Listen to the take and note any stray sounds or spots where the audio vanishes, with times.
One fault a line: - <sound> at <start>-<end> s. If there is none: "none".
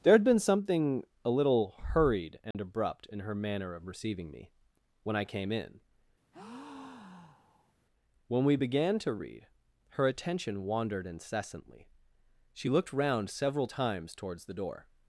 - dropout at 2.5-2.5 s
- breath at 6.3-7.7 s